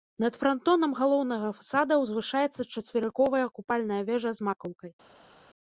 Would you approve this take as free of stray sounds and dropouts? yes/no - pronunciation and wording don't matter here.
yes